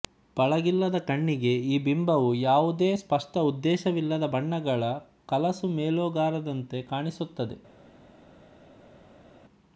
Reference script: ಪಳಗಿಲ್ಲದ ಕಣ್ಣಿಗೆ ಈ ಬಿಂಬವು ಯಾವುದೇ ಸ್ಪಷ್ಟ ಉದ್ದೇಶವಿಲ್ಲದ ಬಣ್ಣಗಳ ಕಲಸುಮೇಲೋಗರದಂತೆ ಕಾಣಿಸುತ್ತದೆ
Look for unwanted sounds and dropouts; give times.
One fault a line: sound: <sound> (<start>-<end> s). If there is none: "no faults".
no faults